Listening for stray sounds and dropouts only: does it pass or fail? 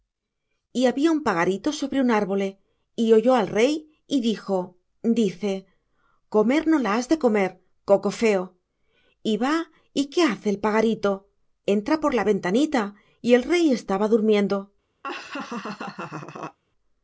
fail